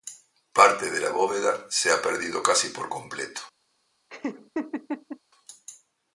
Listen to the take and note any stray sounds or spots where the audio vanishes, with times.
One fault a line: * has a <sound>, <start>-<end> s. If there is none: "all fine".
* has a laugh, 4.1-5.2 s